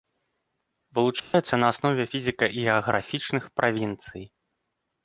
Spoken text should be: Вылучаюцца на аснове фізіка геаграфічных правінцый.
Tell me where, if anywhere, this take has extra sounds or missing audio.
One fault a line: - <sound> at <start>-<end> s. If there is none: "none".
- dropout at 1.2-1.3 s